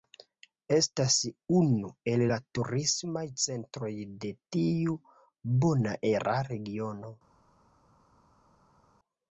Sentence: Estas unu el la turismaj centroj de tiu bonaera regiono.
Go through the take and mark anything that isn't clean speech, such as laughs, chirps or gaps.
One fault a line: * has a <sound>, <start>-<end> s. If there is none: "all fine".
all fine